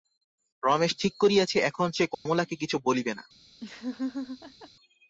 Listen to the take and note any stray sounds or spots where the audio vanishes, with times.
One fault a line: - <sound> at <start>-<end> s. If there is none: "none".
- dropout at 2.1-2.3 s
- laugh at 3.6-4.7 s